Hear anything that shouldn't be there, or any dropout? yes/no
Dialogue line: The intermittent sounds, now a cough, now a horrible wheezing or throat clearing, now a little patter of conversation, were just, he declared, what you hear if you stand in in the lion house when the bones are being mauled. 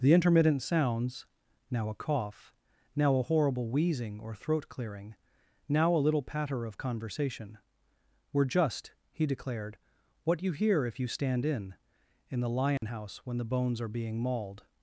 yes